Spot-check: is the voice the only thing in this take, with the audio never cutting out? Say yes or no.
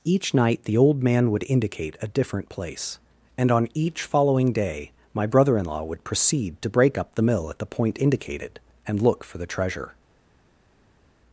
yes